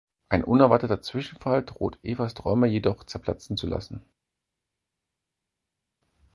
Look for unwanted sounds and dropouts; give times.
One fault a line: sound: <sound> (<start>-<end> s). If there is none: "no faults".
no faults